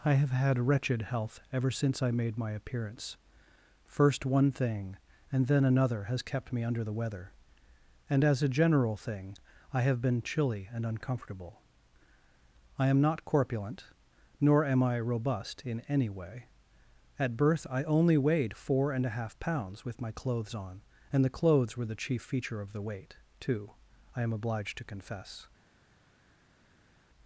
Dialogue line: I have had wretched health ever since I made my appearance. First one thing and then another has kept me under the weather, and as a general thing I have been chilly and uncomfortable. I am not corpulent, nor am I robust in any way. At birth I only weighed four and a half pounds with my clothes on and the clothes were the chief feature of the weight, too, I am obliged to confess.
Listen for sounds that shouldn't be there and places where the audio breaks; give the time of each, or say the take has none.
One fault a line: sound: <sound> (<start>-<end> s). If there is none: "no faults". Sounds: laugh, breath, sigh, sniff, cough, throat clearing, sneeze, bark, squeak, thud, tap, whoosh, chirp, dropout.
no faults